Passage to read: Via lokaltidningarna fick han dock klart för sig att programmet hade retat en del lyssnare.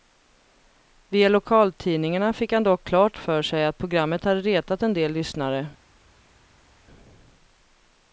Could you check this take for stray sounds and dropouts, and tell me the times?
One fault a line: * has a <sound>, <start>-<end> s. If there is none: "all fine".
all fine